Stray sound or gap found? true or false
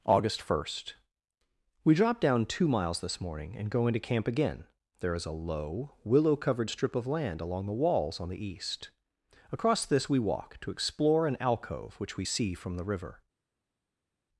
false